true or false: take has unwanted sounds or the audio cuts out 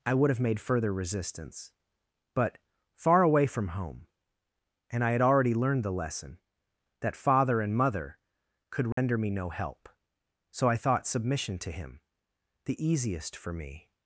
true